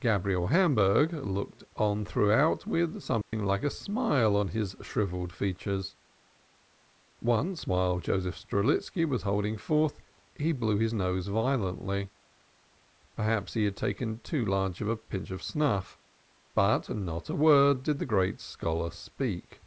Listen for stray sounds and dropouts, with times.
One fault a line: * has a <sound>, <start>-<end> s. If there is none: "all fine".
* has a dropout, 3.2-3.3 s